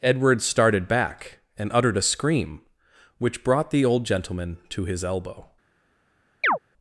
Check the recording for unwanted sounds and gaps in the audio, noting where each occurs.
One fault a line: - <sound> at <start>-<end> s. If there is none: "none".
- chirp at 6.4-6.6 s